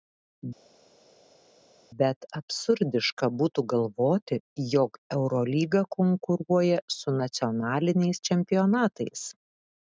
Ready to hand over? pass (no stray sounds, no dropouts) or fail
pass